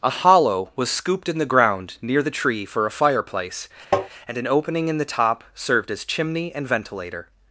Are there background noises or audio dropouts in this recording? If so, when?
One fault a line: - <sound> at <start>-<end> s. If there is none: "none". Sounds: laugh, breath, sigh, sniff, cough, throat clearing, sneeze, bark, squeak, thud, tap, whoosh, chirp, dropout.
- tap at 3.9-4.1 s